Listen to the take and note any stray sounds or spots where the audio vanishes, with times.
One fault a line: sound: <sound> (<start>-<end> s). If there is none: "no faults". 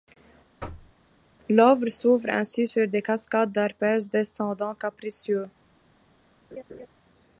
sound: thud (0.6-0.9 s)
sound: laugh (6.5-6.9 s)